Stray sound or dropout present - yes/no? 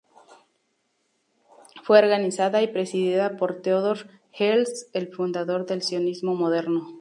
no